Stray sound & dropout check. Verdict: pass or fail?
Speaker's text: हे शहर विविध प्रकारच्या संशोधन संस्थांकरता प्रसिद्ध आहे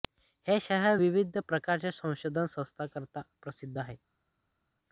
pass